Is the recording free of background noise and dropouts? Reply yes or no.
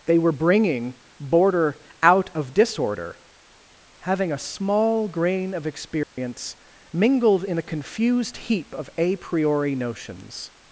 no